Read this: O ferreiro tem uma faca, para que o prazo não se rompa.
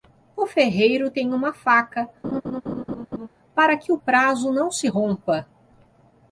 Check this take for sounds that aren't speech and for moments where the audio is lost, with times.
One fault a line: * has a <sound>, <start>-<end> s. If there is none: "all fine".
* has a laugh, 2.2-3.3 s